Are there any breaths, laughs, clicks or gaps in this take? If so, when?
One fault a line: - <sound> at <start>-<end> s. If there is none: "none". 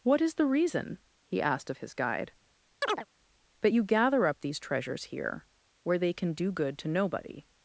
- chirp at 2.8-3.1 s